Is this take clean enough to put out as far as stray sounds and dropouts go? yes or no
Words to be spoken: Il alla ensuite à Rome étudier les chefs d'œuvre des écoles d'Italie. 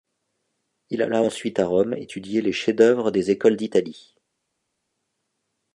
yes